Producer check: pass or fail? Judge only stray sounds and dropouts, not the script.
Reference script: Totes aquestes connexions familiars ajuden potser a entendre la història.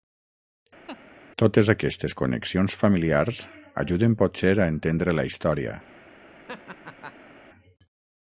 fail